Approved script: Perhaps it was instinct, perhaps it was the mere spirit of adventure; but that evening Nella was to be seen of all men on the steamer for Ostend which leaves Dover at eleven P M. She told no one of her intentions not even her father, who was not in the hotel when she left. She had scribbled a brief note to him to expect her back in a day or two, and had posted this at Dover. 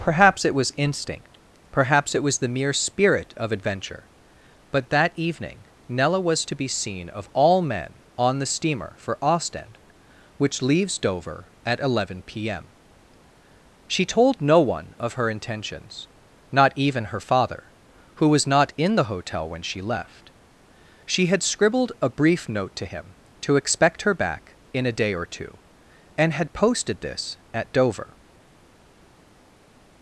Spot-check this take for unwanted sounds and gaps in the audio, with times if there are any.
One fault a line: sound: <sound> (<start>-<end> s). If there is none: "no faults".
no faults